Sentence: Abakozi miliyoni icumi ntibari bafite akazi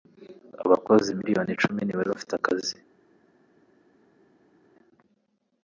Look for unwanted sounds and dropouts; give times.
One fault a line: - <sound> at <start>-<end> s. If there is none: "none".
none